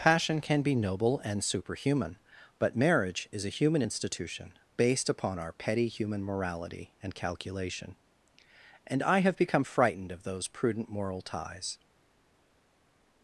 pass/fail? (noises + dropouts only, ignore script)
pass